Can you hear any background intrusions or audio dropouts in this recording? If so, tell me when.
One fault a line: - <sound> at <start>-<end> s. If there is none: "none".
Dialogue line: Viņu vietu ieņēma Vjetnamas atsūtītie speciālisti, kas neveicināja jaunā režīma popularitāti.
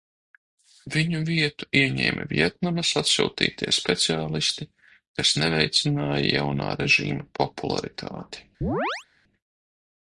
- chirp at 8.6-9.1 s